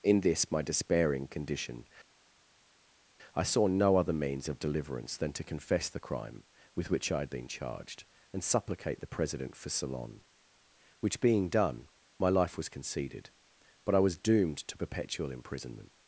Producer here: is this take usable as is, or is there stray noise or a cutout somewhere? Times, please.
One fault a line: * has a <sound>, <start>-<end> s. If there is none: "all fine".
all fine